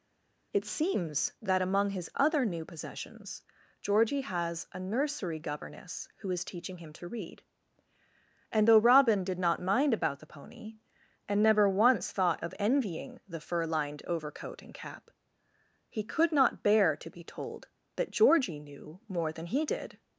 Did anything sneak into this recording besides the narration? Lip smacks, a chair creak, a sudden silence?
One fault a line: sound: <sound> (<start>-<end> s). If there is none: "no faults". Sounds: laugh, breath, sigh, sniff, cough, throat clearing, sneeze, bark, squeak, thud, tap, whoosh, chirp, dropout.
no faults